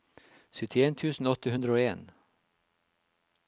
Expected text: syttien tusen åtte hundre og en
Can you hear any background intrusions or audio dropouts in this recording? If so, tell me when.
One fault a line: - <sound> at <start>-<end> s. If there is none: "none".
none